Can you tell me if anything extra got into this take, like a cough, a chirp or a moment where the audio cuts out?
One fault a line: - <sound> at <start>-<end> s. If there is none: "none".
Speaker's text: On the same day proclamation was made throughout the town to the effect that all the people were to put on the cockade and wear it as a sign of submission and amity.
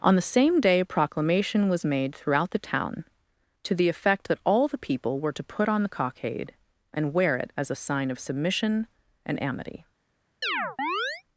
- chirp at 10.4-11.2 s